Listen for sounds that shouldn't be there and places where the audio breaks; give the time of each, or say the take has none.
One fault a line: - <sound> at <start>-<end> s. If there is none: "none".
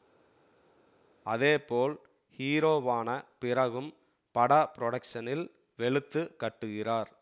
none